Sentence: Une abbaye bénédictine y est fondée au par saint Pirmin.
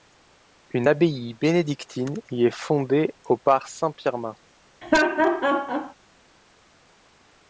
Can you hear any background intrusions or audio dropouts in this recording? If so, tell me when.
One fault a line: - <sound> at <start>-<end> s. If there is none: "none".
- laugh at 4.8-5.9 s